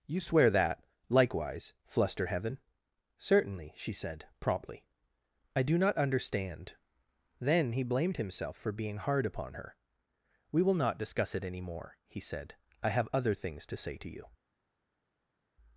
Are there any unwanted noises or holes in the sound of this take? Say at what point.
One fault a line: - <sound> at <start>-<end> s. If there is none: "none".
none